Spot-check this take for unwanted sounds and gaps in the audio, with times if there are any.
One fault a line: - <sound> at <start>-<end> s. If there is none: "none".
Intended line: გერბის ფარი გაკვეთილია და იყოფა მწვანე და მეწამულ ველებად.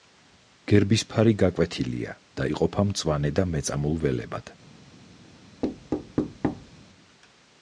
- thud at 5.6-6.7 s